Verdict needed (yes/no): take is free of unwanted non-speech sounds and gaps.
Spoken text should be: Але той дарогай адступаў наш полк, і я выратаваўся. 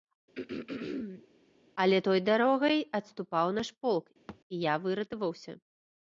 no